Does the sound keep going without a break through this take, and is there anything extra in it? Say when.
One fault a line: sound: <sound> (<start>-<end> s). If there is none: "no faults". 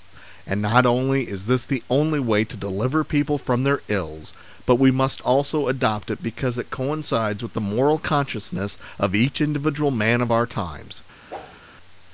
sound: whoosh (11.3-11.6 s)